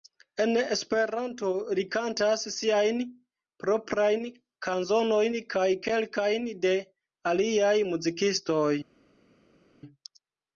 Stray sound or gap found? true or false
false